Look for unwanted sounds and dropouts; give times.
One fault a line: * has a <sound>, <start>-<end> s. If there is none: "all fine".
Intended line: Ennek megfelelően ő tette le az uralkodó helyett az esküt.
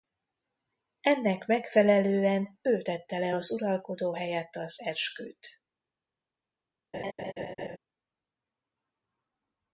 * has a laugh, 6.9-7.8 s